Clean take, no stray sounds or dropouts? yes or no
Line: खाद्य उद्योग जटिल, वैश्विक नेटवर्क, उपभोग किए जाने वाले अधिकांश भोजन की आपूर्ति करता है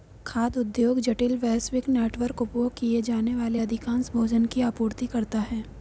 yes